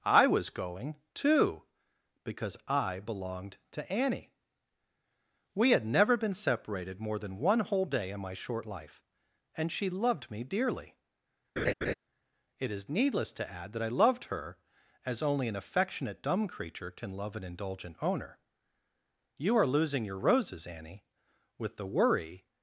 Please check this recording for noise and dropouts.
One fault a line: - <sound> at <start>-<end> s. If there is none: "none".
- laugh at 11.6-11.9 s